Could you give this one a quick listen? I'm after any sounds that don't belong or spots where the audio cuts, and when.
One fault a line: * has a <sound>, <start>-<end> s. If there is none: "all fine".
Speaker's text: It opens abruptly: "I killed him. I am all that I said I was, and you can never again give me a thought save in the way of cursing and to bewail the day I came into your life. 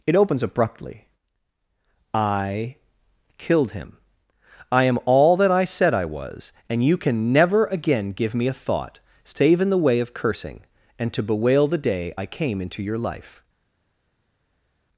all fine